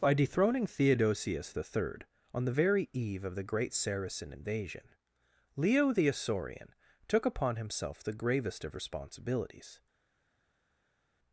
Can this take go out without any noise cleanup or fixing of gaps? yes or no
yes